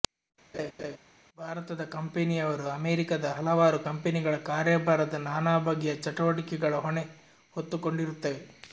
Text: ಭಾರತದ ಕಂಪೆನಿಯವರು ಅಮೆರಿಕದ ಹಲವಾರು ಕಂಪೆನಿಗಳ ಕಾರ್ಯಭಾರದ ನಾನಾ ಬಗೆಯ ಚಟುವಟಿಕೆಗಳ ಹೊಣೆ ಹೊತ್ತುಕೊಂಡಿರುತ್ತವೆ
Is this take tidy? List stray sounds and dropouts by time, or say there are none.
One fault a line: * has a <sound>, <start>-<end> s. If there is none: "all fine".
* has a laugh, 0.5-1.0 s